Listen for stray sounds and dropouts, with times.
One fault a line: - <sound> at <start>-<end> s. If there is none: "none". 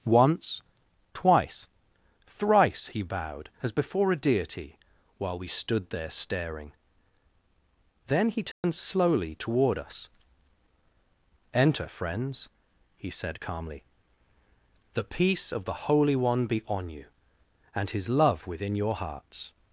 - dropout at 8.5-8.6 s